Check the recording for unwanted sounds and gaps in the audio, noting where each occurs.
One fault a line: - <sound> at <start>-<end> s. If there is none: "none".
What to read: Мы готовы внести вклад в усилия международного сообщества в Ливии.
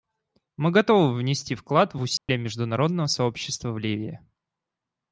- dropout at 2.2-2.3 s